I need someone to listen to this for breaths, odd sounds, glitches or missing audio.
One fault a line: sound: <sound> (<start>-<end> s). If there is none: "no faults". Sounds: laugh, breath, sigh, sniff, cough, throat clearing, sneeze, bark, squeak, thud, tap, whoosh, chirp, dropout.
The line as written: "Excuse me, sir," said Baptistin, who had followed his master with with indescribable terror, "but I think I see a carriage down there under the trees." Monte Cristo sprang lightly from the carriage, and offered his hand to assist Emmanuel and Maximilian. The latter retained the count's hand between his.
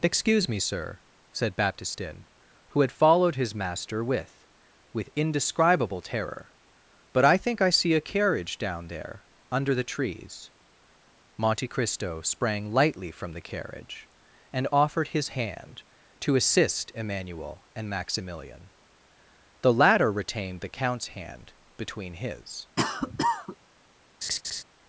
sound: cough (22.8-23.6 s)
sound: laugh (24.2-24.6 s)